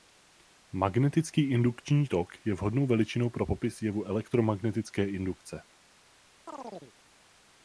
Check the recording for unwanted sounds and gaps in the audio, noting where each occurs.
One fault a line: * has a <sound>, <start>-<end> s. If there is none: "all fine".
* has a chirp, 6.5-6.9 s